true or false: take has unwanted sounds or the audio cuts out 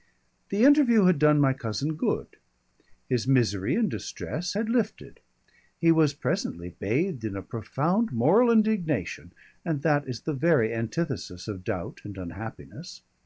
false